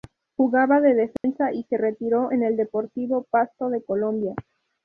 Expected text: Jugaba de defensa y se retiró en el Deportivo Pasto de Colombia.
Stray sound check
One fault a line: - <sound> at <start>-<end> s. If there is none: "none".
- dropout at 1.2-1.2 s